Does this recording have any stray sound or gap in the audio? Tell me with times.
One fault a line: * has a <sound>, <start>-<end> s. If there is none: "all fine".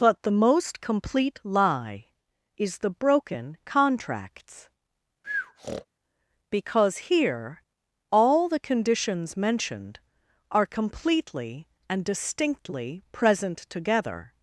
* has a breath, 5.2-5.9 s